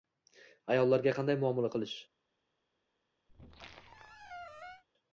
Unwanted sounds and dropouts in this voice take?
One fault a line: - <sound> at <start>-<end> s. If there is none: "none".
- squeak at 3.3-4.8 s